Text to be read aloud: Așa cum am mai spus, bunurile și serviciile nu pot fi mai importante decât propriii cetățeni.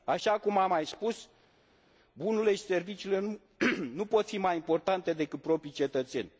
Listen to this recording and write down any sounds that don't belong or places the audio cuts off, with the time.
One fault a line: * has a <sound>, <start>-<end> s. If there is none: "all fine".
all fine